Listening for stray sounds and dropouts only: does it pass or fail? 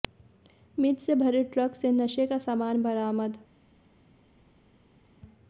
pass